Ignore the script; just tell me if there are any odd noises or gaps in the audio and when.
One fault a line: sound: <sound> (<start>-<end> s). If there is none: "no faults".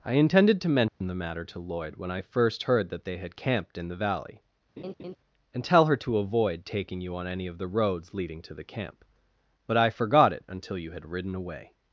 sound: dropout (0.9-1.0 s)
sound: laugh (4.8-5.2 s)